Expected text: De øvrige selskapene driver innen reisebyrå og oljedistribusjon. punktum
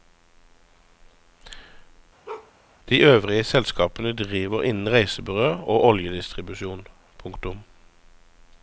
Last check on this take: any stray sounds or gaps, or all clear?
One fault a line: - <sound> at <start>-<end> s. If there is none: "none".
- bark at 2.3-2.5 s